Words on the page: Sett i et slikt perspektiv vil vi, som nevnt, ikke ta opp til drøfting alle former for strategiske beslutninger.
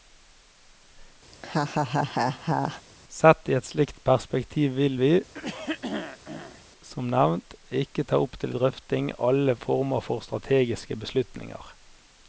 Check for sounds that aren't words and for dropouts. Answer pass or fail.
fail